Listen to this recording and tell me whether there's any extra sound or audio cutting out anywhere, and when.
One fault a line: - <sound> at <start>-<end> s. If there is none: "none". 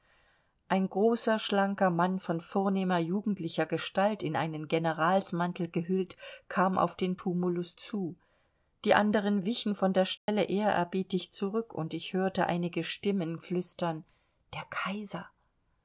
- dropout at 10.2-10.3 s